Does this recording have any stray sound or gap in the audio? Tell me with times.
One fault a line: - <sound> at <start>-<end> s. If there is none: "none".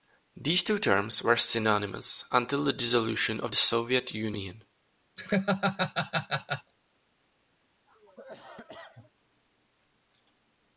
- laugh at 5.2-6.7 s
- cough at 7.9-9.1 s